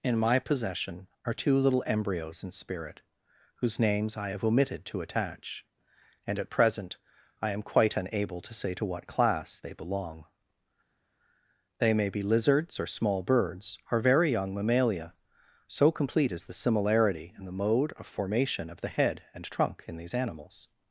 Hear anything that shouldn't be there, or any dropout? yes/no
no